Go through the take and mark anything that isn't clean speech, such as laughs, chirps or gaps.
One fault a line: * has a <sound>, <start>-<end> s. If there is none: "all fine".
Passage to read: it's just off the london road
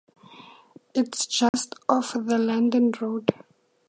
* has a dropout, 1.5-1.5 s